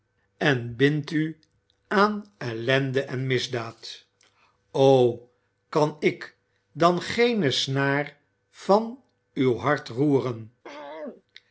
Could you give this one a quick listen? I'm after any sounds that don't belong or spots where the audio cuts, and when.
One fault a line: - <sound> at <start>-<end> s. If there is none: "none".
- throat clearing at 10.6-11.2 s